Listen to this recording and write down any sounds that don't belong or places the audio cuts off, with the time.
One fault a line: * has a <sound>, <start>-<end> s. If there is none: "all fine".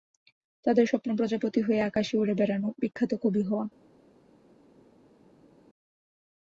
all fine